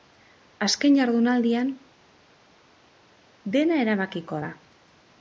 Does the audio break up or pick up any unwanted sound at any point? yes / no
no